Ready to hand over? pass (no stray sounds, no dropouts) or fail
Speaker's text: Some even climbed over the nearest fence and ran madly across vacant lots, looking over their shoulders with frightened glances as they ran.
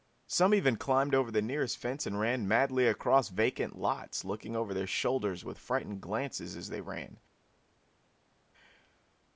pass